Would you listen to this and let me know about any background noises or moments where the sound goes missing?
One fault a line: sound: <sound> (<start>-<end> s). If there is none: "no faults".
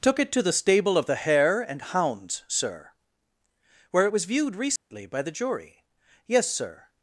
sound: dropout (4.8-4.9 s)